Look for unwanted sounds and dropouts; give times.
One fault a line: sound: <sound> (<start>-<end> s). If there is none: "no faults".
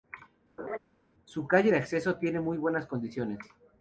sound: laugh (0.6-0.8 s)